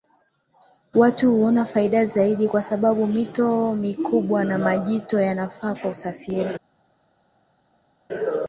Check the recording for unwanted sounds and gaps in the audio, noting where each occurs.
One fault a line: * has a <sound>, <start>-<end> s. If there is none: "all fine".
all fine